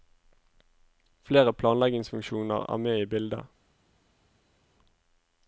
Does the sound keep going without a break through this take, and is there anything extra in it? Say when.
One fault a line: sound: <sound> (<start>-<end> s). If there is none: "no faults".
no faults